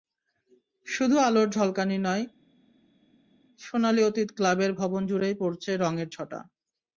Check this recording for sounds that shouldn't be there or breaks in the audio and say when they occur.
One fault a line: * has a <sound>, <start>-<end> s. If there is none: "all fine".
all fine